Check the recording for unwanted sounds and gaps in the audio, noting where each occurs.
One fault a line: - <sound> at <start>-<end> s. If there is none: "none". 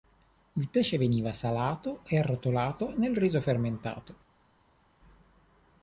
none